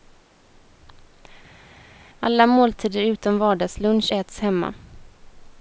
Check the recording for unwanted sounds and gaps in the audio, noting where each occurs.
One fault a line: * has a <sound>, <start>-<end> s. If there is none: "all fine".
all fine